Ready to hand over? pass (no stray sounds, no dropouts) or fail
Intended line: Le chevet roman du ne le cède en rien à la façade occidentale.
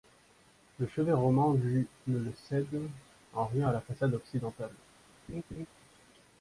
fail